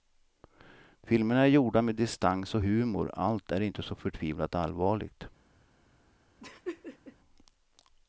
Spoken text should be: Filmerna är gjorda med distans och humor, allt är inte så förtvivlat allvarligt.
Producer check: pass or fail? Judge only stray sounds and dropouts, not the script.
fail